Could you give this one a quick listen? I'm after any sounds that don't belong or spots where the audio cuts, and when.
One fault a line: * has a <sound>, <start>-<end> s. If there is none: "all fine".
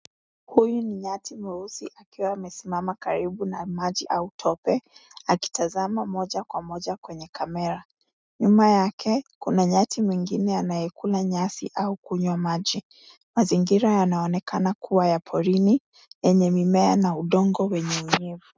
all fine